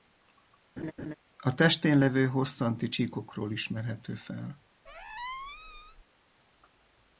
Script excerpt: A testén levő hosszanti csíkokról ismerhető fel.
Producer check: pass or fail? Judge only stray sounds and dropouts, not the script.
fail